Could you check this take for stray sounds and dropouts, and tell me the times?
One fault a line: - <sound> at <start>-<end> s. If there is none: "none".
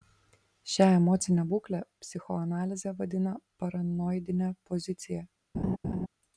- laugh at 5.5-6.1 s